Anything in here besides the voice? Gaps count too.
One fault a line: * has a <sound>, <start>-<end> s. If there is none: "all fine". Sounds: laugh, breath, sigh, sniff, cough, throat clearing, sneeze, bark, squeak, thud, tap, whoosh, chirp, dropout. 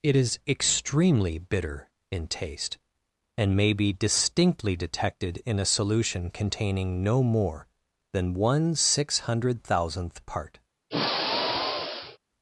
* has a sigh, 10.9-12.2 s